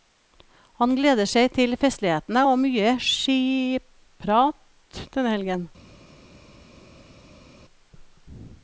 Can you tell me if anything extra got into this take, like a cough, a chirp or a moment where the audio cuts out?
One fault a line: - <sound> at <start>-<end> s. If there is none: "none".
none